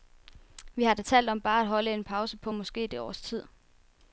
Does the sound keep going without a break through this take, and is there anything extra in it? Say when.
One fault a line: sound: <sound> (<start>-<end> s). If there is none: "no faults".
no faults